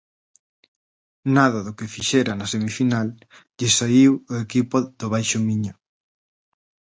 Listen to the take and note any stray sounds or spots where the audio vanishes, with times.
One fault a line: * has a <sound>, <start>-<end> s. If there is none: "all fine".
all fine